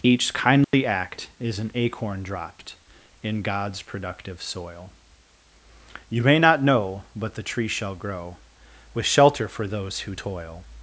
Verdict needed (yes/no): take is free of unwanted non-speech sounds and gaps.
no